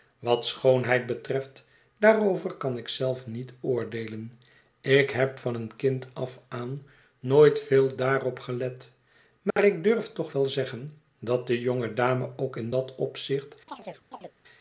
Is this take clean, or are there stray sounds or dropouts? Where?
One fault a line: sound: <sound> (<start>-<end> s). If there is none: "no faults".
sound: dropout (9.5-9.6 s)
sound: chirp (13.7-14.3 s)